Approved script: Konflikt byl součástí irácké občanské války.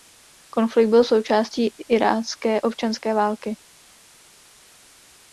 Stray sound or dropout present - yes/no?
no